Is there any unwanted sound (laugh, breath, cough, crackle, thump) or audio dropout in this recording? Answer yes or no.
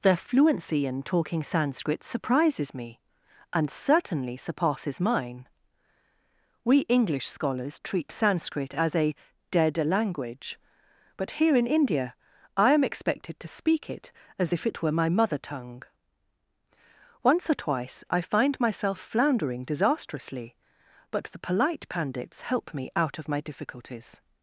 no